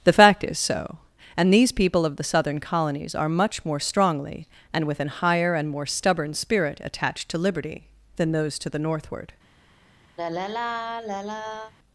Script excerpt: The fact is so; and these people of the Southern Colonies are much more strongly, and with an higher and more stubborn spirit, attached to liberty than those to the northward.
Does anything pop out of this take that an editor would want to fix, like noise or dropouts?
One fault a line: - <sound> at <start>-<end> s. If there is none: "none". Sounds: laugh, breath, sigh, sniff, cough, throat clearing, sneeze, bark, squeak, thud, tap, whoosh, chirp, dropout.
- sigh at 10.2-11.7 s